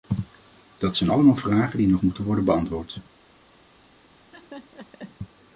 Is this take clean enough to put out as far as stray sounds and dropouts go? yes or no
no